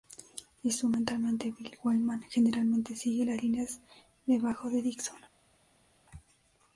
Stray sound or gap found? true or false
false